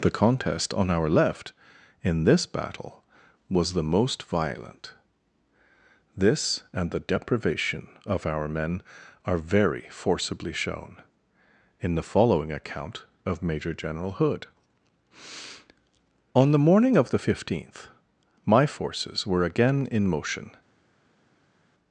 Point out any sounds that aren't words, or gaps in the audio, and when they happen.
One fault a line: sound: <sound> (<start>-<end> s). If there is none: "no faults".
no faults